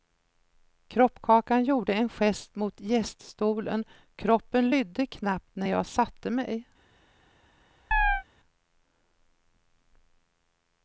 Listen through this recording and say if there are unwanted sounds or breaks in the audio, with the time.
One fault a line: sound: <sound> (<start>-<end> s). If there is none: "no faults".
sound: chirp (7.9-8.2 s)